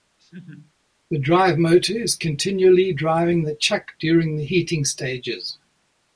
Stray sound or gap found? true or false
true